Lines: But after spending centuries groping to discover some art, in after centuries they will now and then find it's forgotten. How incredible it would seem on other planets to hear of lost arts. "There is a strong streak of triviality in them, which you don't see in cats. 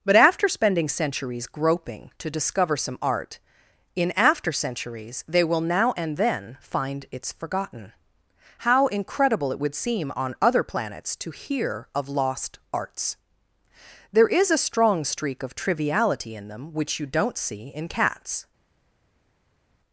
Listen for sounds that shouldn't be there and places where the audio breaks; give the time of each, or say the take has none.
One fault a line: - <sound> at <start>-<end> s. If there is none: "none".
none